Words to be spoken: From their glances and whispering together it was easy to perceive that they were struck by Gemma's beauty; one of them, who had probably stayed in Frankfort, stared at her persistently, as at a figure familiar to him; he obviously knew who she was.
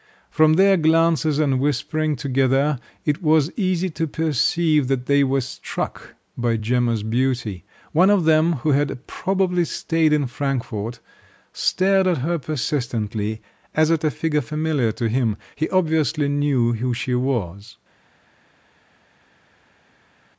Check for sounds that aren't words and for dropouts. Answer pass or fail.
pass